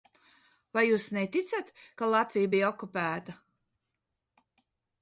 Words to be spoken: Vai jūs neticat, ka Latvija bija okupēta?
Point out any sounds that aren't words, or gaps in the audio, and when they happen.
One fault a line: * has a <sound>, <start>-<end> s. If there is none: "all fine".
all fine